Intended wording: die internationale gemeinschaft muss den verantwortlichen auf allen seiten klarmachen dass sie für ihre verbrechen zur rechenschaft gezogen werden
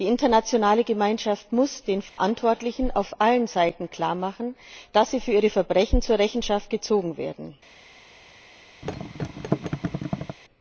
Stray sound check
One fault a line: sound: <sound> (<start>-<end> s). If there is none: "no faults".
sound: dropout (2.1-2.2 s)
sound: thud (8.8-10.4 s)